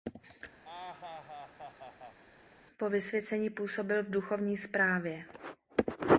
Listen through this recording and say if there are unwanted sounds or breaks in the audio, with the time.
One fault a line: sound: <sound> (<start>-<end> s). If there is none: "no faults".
sound: laugh (0.6-2.2 s)